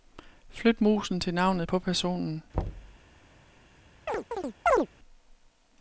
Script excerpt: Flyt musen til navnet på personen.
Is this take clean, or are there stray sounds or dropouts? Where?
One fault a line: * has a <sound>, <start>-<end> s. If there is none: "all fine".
* has a thud, 2.5-3.0 s
* has a chirp, 4.1-4.9 s